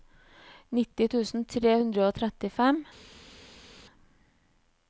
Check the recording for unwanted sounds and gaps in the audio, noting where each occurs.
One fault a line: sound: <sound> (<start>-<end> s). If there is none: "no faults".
no faults